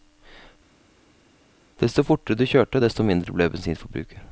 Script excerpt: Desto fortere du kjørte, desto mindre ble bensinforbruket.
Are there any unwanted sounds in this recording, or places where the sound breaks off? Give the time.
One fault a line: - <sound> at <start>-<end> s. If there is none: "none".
none